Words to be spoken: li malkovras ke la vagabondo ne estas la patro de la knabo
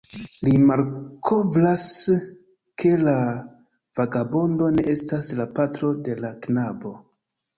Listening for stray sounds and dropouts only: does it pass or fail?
pass